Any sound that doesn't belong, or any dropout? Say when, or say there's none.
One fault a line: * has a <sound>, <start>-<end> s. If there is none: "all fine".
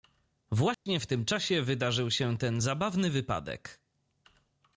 * has a dropout, 0.7-0.9 s